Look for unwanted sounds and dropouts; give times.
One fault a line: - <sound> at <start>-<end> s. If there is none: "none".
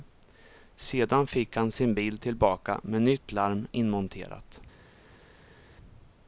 none